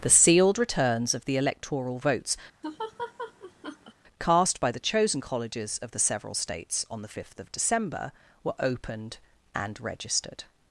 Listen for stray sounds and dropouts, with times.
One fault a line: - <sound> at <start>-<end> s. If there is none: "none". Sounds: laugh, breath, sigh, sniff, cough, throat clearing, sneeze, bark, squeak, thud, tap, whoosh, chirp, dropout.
- laugh at 2.6-3.9 s